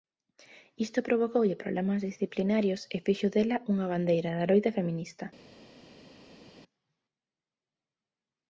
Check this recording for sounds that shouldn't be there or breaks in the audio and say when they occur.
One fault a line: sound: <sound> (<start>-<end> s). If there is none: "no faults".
no faults